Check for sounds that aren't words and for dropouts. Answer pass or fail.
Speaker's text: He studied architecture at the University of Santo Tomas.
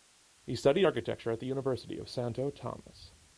pass